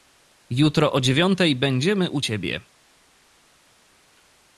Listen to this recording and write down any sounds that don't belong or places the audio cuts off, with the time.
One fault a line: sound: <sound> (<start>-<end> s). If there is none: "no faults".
no faults